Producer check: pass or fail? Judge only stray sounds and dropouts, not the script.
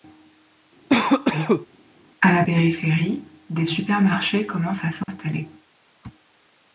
fail